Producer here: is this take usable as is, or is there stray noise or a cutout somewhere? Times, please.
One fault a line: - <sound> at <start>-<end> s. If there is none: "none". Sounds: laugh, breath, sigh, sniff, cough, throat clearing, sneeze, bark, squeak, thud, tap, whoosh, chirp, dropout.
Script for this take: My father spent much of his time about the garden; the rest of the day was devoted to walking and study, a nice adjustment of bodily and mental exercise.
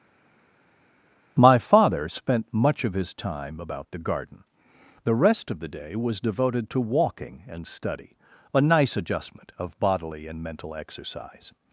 none